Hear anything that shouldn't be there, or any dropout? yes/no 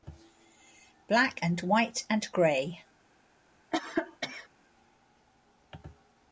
yes